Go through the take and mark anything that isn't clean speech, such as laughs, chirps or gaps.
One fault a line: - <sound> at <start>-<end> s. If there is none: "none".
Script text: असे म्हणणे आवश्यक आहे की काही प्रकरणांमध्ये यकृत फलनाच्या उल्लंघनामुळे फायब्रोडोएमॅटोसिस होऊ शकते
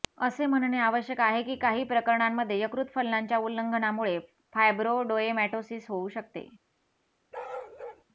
- bark at 7.3-8.0 s